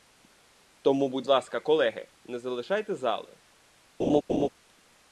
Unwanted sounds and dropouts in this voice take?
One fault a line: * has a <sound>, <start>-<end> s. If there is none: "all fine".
* has a laugh, 4.0-4.5 s